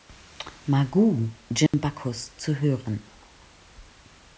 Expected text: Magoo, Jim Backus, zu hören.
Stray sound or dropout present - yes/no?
yes